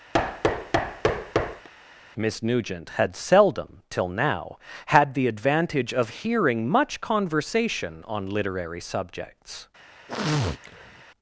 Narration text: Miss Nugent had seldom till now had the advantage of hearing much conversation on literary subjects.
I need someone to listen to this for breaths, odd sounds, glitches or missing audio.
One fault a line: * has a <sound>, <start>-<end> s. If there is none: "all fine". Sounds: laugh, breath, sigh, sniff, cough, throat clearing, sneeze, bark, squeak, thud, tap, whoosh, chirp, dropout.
* has a thud, 0.1-1.7 s
* has a sniff, 10.1-11.0 s